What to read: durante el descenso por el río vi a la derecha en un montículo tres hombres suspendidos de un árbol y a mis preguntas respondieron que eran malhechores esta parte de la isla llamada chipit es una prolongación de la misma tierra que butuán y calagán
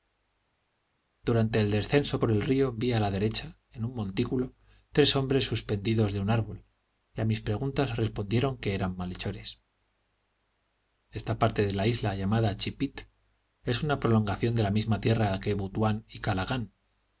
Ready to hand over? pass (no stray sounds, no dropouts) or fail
pass